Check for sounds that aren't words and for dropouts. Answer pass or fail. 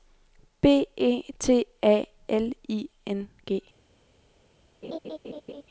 fail